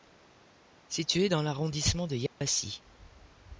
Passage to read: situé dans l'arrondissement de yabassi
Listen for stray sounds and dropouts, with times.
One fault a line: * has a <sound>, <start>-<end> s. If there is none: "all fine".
* has a dropout, 2.3-2.4 s